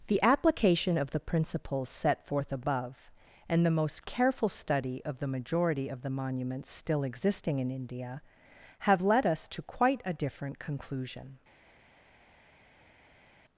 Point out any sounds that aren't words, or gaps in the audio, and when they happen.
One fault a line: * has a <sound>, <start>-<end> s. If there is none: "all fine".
all fine